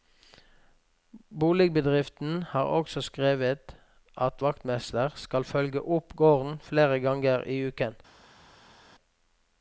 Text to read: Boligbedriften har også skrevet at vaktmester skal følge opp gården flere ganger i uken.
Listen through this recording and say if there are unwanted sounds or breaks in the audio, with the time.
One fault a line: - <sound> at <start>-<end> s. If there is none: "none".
none